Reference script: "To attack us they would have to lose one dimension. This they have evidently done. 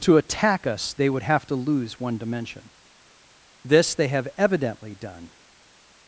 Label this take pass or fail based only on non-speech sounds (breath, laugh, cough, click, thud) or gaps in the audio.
pass